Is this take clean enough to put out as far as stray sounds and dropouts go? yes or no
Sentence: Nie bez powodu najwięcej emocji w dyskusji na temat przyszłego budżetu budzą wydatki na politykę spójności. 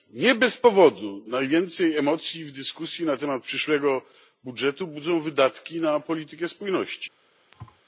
no